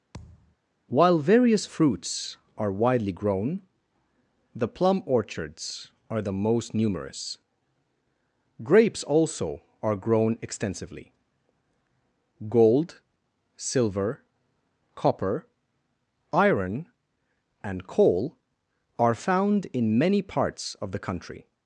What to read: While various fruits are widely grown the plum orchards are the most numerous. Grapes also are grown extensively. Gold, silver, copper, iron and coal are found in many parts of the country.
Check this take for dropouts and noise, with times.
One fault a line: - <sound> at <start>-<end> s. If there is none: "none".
- thud at 0.1-0.6 s